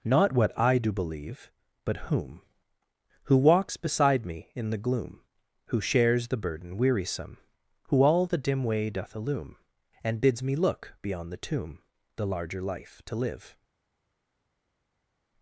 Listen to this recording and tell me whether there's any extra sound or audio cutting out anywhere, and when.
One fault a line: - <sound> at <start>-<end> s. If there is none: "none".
none